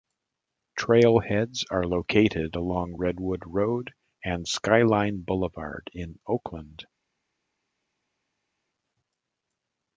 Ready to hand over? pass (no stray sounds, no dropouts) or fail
pass